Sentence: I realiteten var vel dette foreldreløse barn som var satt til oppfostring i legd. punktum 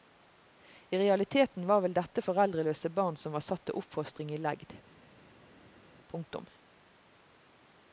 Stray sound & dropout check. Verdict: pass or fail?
pass